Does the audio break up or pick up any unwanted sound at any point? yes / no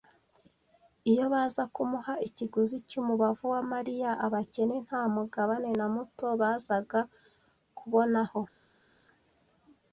no